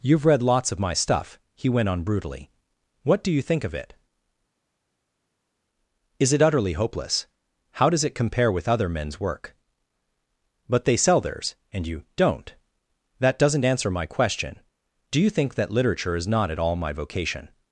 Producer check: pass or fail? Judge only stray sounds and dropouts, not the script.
pass